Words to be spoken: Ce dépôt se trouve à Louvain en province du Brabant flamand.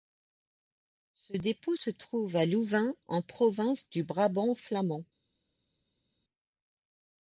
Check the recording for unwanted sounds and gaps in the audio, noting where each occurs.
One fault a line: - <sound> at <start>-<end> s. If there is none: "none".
none